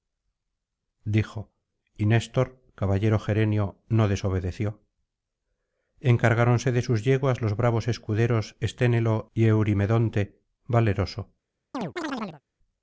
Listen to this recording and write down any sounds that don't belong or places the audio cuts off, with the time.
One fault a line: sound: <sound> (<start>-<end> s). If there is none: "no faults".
sound: chirp (11.7-12.4 s)